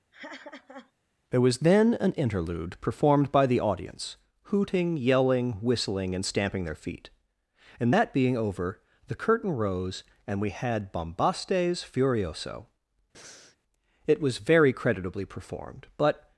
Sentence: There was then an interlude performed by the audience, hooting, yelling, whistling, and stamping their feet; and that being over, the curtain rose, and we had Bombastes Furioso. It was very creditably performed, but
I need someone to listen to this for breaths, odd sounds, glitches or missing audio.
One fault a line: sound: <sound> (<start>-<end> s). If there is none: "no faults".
sound: laugh (0.1-0.9 s)
sound: breath (13.1-13.6 s)